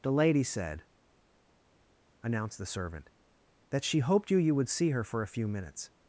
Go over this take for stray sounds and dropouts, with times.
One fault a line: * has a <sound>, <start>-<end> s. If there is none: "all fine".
all fine